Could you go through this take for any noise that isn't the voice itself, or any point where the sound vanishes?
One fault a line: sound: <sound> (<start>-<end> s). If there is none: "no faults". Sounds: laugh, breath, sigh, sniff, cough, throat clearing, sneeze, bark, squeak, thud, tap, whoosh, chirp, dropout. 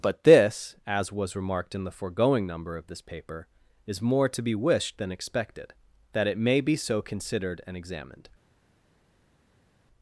no faults